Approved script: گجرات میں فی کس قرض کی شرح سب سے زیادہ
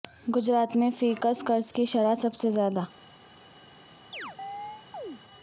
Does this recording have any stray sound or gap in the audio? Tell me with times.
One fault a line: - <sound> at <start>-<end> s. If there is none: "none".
- chirp at 4.1-5.2 s